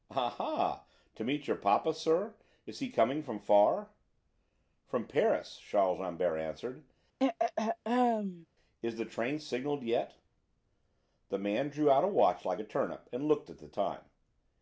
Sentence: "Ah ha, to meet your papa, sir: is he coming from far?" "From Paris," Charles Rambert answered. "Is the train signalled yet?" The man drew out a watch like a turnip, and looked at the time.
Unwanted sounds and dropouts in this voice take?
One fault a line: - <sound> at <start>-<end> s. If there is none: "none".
- throat clearing at 7.2-8.5 s